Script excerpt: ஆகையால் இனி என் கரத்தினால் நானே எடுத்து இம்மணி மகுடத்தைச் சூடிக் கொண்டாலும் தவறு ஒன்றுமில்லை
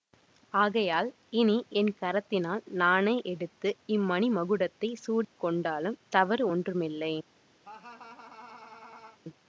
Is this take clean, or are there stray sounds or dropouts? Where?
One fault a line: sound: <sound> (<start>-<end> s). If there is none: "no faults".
sound: dropout (5.2-5.4 s)
sound: laugh (7.6-9.2 s)